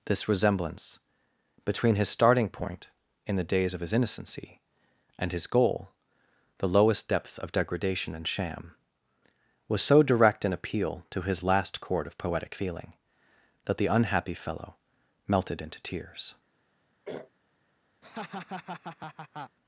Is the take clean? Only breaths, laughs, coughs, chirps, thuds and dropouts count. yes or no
no